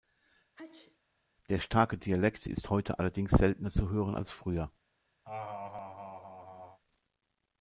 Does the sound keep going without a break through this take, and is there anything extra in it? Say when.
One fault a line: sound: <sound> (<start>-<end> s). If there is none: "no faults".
sound: sneeze (0.6-1.0 s)
sound: laugh (5.2-6.8 s)